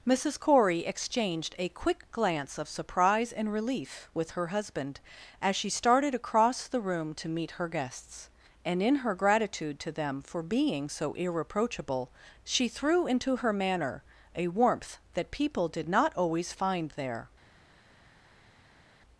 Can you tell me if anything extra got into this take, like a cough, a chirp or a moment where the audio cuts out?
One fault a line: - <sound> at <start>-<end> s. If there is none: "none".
none